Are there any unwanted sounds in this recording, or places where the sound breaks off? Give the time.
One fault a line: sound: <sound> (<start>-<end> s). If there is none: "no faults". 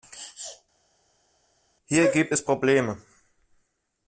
no faults